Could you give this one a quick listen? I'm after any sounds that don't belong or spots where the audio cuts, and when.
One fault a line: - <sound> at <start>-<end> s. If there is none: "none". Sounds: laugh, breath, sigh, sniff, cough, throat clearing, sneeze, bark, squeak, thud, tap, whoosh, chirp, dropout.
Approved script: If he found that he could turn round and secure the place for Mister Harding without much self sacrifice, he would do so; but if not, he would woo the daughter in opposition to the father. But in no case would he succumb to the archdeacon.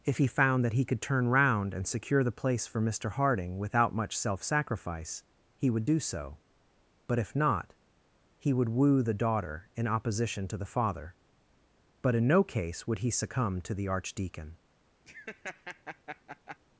- laugh at 15.1-16.6 s